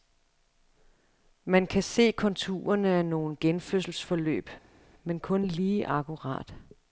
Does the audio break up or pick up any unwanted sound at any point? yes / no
no